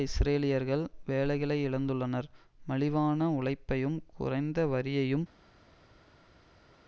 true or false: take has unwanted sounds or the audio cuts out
false